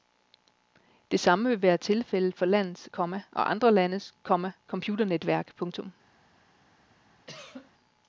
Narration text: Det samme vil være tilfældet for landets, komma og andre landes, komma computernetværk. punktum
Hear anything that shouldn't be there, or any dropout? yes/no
yes